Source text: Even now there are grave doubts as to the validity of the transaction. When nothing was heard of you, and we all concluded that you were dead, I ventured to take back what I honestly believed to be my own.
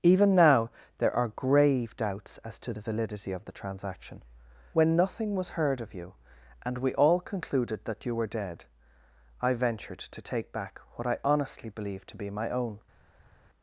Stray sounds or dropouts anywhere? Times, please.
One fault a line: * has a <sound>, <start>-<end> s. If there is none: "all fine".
all fine